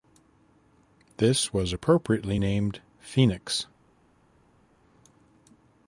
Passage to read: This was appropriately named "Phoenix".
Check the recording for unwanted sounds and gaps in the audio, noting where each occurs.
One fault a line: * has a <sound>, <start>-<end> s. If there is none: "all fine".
all fine